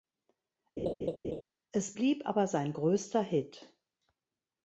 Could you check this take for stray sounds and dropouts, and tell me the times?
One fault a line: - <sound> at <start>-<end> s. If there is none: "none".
- laugh at 0.8-1.4 s